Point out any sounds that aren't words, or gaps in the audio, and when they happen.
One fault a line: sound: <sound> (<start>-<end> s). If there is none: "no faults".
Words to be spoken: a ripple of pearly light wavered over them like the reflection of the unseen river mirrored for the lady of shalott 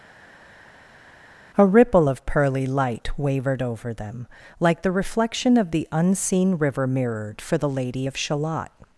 no faults